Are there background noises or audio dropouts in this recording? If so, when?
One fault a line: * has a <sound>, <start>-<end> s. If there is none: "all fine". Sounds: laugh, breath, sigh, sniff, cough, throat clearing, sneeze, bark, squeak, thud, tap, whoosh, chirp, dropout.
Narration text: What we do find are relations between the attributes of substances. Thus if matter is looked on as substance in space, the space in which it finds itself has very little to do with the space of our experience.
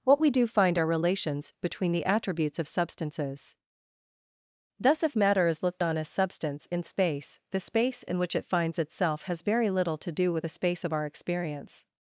all fine